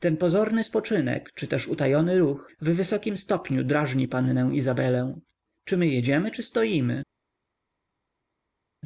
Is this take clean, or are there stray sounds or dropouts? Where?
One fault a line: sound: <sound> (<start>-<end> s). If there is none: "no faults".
no faults